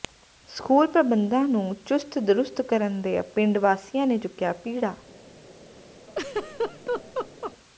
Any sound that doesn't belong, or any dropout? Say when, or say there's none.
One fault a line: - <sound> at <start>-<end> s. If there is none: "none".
- laugh at 6.1-7.5 s